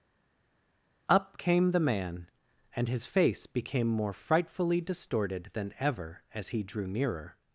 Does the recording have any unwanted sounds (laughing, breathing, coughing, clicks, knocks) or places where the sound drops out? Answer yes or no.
no